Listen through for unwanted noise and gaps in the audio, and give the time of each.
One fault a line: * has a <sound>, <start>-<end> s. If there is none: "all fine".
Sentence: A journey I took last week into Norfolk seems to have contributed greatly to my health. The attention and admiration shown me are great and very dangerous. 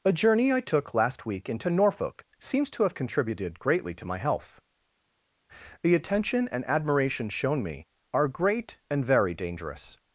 all fine